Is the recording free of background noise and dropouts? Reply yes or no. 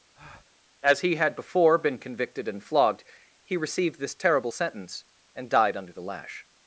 no